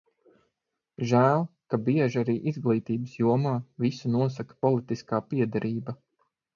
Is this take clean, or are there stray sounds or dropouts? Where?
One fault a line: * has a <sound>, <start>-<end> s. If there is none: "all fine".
all fine